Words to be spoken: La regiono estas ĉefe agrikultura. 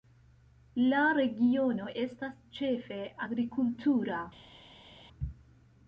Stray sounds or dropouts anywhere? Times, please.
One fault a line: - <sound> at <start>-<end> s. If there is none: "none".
none